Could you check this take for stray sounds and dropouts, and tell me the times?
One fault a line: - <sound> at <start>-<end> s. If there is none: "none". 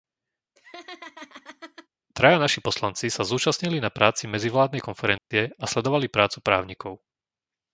- laugh at 0.6-1.9 s
- dropout at 5.2-5.3 s